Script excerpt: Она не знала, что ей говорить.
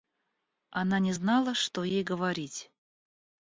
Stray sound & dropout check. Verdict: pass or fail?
pass